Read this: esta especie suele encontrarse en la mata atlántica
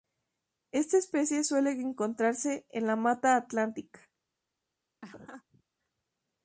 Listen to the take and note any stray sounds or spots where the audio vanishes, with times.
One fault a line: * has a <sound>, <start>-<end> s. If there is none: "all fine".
* has a laugh, 5.0-5.6 s